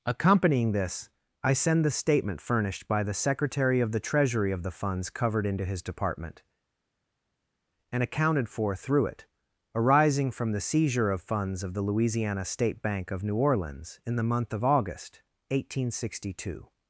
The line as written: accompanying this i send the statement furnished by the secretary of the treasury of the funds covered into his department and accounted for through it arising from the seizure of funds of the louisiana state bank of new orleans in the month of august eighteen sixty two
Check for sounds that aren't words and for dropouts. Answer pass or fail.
pass